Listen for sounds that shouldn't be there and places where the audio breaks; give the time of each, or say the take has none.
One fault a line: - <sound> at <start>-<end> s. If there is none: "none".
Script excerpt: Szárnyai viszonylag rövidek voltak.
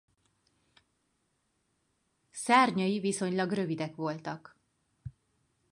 none